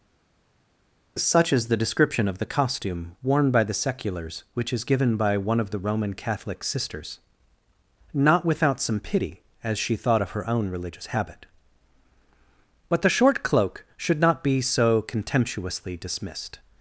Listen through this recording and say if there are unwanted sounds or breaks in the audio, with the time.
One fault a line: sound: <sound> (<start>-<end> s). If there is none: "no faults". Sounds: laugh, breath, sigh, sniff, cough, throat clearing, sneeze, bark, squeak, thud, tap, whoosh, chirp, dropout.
no faults